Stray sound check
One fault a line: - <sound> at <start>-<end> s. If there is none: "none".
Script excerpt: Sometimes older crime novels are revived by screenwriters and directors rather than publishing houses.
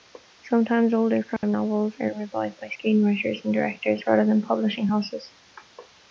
- dropout at 1.4-1.4 s